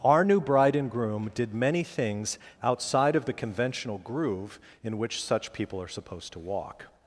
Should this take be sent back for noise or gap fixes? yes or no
no